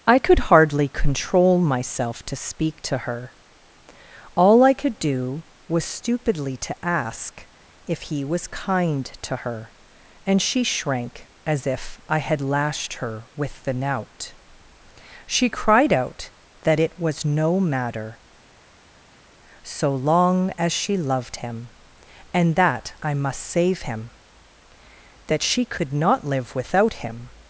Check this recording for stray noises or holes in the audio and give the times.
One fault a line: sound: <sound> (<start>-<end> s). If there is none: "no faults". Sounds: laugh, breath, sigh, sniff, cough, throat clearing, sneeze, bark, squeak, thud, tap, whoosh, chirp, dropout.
no faults